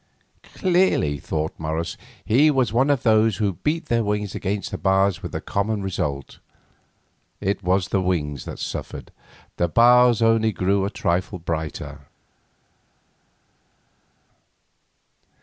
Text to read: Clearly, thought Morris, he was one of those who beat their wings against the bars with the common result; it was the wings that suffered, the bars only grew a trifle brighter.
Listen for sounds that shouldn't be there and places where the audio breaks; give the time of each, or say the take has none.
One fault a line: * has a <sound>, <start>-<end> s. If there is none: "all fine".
all fine